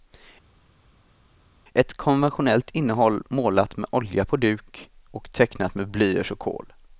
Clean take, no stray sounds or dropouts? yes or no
yes